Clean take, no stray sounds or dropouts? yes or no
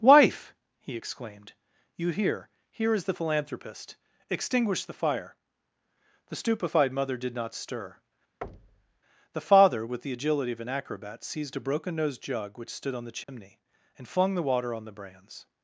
no